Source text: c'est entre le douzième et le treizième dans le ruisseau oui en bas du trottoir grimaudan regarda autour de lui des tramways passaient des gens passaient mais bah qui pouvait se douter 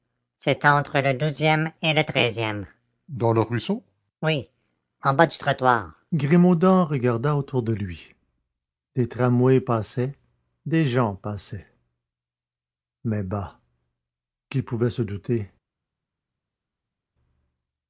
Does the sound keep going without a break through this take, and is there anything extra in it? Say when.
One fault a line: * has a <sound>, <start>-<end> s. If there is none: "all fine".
all fine